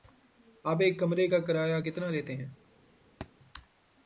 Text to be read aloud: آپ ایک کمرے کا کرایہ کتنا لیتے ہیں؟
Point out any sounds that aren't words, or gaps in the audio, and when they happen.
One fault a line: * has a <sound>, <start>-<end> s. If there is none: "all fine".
* has a thud, 3.2-3.3 s